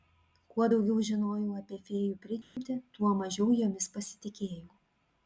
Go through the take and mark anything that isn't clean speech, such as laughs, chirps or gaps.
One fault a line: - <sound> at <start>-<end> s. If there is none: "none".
- dropout at 2.4-2.6 s